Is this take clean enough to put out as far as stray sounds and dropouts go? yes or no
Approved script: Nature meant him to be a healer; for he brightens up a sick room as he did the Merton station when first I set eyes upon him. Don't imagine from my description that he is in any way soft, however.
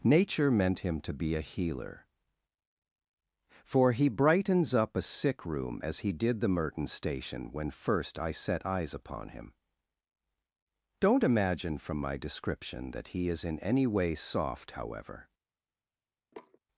no